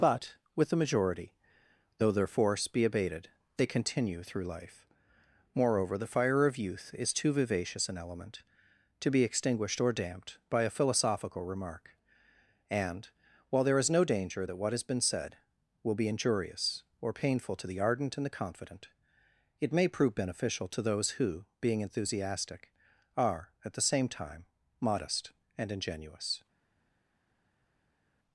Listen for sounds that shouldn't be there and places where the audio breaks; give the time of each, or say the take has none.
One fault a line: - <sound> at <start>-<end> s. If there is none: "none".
none